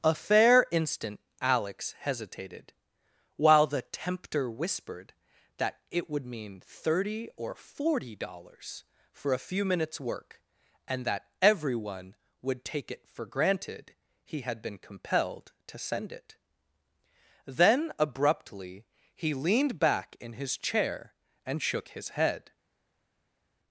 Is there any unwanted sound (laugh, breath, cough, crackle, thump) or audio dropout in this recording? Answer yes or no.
no